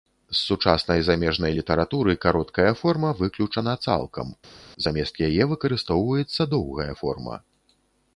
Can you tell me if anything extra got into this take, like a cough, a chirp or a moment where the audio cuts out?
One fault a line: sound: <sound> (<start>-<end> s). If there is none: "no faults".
no faults